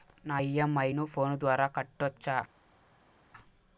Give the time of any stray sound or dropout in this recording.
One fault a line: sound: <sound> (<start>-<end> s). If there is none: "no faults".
no faults